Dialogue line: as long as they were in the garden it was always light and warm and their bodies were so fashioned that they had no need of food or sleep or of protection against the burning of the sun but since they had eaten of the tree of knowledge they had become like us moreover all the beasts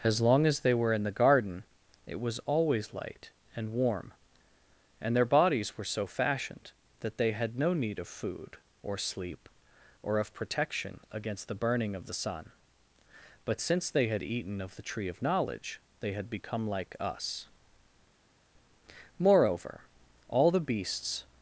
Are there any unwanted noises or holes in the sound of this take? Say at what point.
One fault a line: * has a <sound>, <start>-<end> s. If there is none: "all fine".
all fine